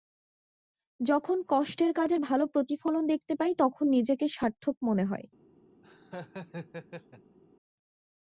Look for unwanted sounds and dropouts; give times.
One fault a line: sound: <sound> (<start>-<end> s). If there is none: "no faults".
sound: laugh (5.8-7.4 s)